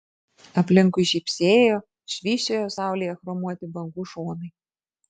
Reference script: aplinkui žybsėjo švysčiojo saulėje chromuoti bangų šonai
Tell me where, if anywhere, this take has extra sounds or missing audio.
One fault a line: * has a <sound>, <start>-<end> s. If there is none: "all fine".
all fine